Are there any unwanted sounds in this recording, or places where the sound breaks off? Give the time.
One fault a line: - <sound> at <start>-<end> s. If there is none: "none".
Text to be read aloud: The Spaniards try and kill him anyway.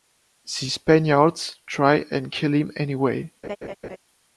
- laugh at 3.4-4.0 s